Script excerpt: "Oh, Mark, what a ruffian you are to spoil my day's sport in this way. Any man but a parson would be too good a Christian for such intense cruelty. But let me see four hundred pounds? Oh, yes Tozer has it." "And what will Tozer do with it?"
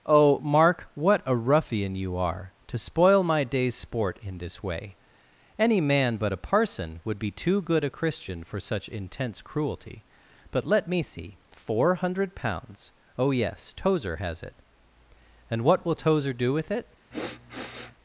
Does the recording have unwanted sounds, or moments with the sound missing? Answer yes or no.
yes